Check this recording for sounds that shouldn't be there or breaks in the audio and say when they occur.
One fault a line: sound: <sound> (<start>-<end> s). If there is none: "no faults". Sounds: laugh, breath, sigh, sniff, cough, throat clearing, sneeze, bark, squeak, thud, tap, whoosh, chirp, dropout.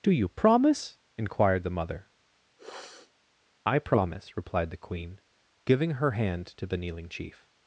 sound: sniff (2.6-3.1 s)